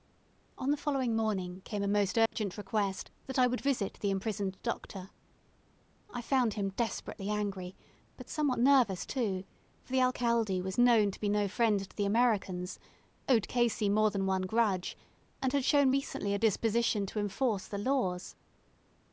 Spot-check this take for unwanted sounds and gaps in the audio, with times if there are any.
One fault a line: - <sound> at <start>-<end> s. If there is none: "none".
- dropout at 2.3-2.3 s